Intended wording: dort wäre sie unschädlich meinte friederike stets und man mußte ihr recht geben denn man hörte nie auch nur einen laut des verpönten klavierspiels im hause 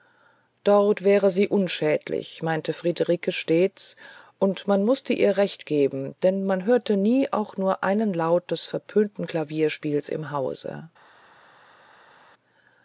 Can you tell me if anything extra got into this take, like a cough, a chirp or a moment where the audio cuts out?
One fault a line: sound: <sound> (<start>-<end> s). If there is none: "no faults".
no faults